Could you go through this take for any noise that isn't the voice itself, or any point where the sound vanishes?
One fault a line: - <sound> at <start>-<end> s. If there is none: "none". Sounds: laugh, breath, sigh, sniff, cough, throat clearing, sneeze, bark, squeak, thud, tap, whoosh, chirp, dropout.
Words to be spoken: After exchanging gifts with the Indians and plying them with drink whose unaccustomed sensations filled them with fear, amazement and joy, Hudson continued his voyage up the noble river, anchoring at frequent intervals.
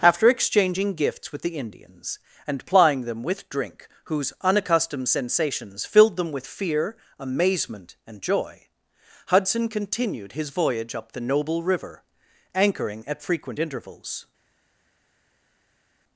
none